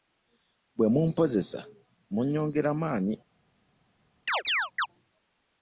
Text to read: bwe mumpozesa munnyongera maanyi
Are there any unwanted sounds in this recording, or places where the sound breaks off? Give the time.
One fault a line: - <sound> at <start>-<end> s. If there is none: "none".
- chirp at 4.3-4.9 s